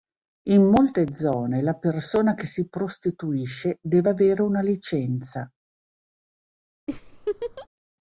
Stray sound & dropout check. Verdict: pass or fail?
fail